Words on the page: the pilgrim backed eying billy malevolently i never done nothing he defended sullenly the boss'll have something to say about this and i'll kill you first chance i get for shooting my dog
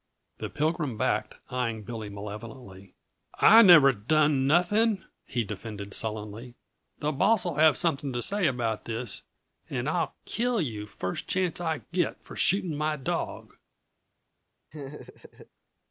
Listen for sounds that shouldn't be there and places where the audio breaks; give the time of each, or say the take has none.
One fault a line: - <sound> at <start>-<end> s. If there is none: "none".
- laugh at 14.7-15.5 s